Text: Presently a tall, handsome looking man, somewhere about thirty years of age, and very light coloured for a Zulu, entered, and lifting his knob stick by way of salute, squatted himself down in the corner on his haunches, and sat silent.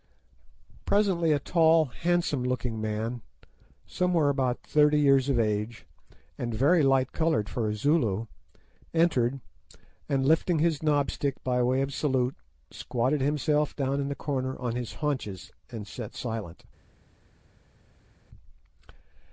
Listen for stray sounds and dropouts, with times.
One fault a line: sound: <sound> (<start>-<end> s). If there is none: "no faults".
no faults